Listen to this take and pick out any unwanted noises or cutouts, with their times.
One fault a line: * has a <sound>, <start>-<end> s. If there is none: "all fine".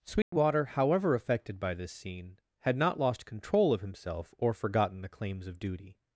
* has a dropout, 0.2-0.3 s